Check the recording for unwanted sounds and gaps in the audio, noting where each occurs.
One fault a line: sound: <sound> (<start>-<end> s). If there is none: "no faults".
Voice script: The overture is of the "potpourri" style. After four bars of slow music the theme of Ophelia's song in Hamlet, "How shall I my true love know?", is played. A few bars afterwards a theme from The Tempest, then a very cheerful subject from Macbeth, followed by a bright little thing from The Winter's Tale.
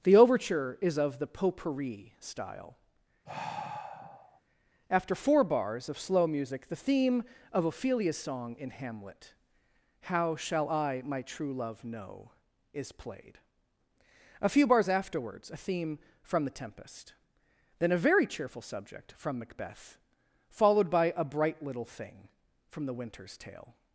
sound: sigh (3.3-4.4 s)